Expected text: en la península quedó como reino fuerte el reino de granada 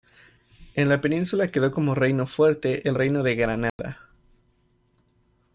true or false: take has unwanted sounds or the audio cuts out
true